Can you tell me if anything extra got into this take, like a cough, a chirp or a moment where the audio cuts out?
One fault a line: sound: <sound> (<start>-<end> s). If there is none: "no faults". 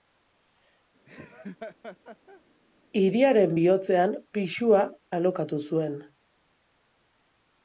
sound: laugh (1.1-2.4 s)